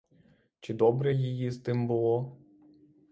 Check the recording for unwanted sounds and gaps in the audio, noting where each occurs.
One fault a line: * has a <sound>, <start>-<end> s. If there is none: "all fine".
all fine